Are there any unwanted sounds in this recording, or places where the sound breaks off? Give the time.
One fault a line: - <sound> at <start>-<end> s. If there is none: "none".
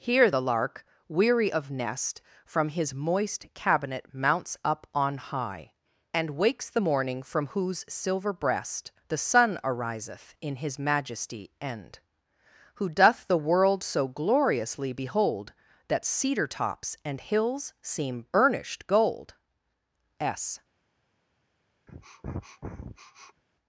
- sniff at 21.9-23.4 s